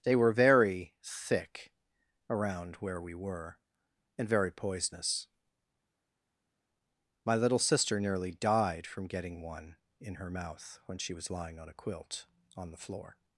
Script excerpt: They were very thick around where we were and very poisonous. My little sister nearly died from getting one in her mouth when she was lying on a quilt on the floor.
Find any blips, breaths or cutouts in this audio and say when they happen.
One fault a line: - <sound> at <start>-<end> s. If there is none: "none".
none